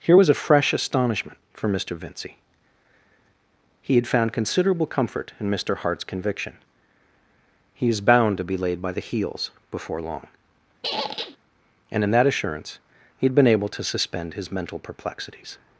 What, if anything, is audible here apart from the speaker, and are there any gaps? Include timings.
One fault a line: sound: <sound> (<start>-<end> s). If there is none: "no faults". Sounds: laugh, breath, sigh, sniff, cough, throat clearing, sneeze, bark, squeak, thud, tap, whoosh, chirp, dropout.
sound: squeak (10.8-11.4 s)